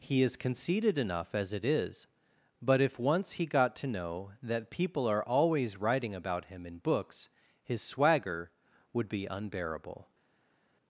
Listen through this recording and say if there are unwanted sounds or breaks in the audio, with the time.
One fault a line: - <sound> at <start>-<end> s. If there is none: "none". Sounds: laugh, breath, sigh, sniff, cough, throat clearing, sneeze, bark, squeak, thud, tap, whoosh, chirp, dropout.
none